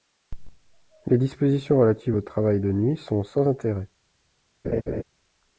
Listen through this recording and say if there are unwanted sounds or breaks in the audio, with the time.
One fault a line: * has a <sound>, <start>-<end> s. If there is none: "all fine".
* has a laugh, 4.6-5.0 s